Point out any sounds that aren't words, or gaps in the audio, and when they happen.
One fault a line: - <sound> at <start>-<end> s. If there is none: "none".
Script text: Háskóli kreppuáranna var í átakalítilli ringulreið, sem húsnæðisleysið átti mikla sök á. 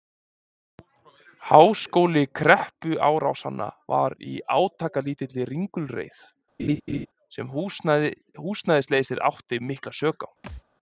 - laugh at 6.6-7.1 s
- thud at 10.4-10.6 s